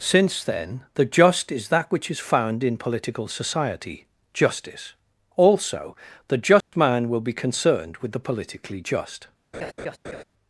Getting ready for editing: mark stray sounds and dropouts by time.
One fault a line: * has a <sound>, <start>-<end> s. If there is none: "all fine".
* has a dropout, 6.6-6.7 s
* has a laugh, 9.5-10.2 s